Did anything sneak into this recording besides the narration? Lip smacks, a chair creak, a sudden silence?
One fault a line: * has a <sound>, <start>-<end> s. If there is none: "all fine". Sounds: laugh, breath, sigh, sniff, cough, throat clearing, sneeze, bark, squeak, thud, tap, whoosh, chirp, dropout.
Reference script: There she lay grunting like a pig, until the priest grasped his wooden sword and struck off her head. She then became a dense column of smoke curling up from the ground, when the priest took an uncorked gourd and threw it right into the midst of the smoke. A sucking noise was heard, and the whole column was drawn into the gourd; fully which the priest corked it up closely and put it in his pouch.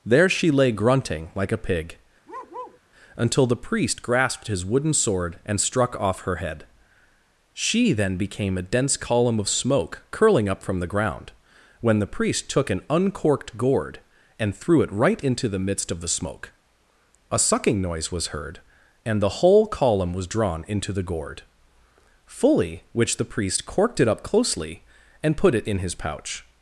* has a bark, 2.3-2.8 s